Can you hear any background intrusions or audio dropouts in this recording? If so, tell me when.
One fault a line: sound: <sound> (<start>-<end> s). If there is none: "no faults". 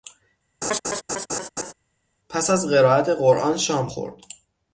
sound: laugh (0.6-1.7 s)